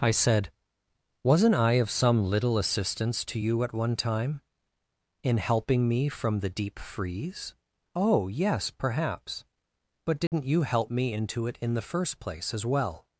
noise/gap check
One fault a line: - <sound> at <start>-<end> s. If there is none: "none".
- dropout at 10.3-10.3 s